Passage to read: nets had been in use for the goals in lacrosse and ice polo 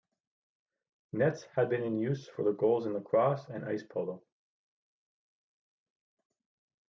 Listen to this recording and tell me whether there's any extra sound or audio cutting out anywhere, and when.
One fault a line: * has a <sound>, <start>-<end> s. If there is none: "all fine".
all fine